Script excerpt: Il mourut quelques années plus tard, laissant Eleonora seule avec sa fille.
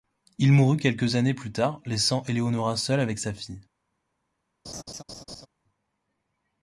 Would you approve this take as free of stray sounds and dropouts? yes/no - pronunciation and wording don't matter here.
no